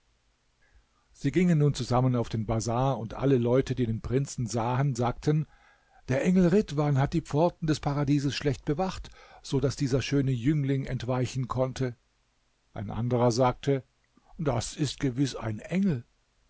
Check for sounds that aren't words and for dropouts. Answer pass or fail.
pass